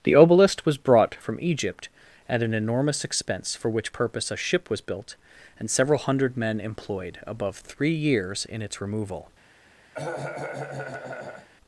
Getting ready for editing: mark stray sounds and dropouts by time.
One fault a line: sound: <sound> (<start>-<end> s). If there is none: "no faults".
sound: cough (9.9-11.5 s)